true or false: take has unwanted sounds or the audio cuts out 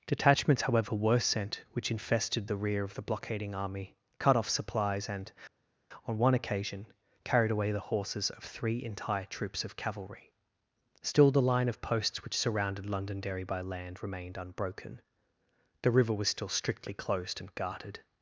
false